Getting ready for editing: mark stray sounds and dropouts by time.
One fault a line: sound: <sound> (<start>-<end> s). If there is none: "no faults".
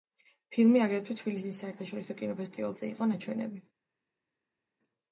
no faults